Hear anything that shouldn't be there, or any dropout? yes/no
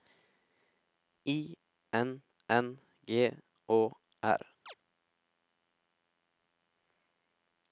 yes